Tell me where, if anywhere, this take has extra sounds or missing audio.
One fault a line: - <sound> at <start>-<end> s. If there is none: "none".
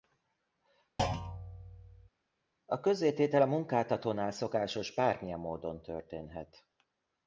- thud at 1.0-2.1 s